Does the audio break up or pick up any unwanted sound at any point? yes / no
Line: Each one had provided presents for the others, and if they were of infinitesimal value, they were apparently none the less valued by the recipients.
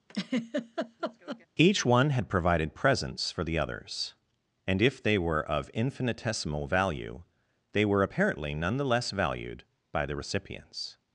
yes